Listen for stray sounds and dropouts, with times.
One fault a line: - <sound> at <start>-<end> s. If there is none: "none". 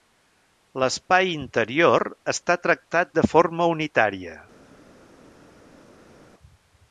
none